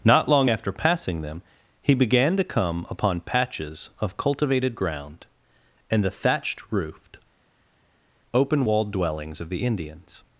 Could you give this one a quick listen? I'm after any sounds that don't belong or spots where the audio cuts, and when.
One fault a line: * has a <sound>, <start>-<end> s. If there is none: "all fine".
all fine